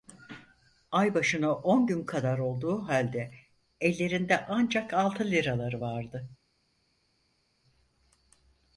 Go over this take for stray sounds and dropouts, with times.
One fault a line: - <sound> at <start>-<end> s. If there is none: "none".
none